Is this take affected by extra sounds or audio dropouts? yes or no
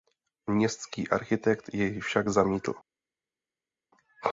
no